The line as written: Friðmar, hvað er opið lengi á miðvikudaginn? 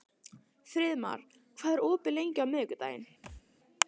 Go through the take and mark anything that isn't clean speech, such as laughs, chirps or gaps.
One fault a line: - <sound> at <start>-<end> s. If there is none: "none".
- thud at 3.2-3.4 s